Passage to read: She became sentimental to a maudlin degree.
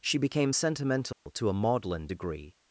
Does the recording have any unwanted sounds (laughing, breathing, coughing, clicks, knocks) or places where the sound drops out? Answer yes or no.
yes